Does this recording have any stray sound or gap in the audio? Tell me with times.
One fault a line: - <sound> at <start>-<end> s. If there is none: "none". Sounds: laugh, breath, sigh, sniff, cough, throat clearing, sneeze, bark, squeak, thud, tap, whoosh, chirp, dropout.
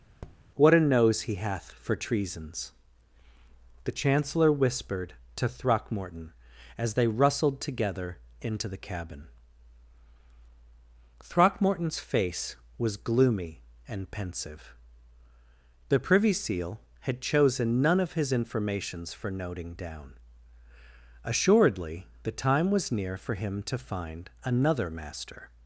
- tap at 0.2-0.4 s